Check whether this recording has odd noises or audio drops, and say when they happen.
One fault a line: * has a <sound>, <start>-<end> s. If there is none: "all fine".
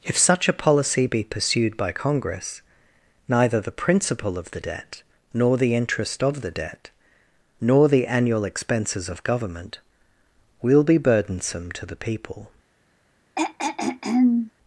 * has a throat clearing, 13.4-14.5 s